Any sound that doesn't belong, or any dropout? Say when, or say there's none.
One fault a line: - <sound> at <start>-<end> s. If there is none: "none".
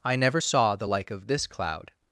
none